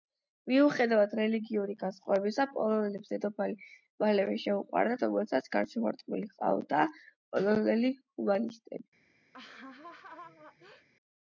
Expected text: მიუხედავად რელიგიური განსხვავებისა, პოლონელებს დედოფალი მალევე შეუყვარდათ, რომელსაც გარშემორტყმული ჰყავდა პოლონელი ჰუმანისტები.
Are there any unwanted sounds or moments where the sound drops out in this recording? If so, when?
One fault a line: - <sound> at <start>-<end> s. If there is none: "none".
- laugh at 9.3-10.9 s